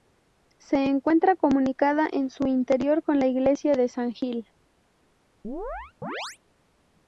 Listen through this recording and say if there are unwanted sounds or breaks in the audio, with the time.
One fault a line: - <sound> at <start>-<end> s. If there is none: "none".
- chirp at 5.4-6.4 s